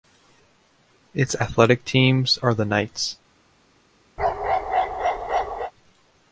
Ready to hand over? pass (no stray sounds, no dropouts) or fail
fail